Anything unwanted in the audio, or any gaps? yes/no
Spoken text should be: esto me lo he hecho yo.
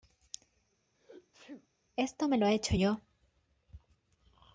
yes